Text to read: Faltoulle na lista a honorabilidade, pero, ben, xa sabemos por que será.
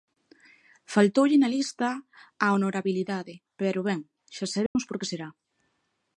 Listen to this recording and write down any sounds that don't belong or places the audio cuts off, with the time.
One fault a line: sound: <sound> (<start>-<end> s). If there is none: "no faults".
sound: dropout (4.7-4.8 s)